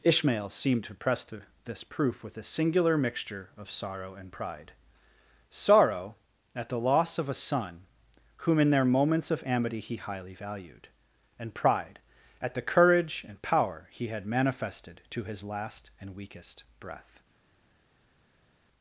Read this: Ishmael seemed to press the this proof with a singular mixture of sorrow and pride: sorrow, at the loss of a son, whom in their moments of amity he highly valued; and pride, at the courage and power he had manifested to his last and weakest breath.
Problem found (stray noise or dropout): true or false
false